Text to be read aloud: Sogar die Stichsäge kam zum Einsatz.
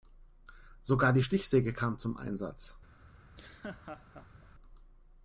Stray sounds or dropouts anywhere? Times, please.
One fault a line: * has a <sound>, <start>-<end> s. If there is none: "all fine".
* has a laugh, 3.2-4.5 s